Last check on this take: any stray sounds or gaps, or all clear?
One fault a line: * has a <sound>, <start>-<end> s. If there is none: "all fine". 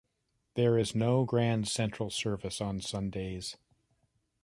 all fine